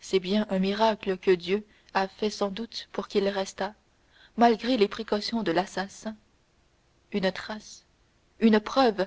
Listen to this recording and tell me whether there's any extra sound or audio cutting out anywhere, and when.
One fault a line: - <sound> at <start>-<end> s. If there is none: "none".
none